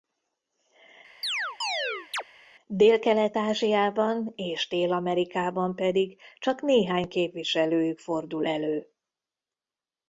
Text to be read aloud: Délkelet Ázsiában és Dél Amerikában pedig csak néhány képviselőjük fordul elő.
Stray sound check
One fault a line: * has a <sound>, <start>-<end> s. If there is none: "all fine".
* has a chirp, 1.2-2.2 s